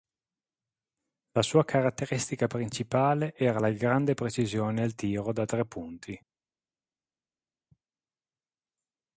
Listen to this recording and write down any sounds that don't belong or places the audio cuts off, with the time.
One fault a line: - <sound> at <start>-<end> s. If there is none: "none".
none